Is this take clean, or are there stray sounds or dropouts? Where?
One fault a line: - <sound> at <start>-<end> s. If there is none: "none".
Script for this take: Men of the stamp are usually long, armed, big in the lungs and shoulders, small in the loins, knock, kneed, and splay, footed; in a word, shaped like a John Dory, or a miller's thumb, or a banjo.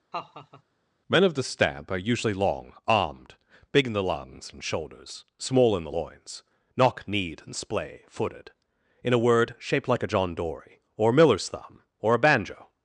- laugh at 0.1-0.6 s